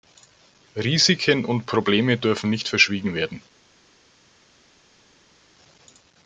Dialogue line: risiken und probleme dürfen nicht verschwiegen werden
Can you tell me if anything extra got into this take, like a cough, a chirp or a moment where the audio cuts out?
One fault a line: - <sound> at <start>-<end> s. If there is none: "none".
none